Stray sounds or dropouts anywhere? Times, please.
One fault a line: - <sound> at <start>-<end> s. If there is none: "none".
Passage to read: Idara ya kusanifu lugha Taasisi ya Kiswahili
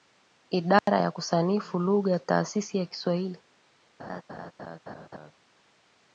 - dropout at 0.8-0.9 s
- laugh at 4.0-5.3 s